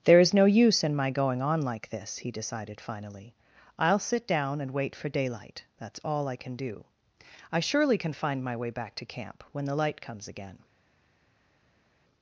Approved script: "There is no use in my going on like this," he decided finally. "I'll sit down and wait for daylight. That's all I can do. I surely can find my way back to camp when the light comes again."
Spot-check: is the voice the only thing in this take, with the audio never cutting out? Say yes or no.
yes